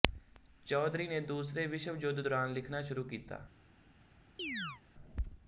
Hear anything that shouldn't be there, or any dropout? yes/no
yes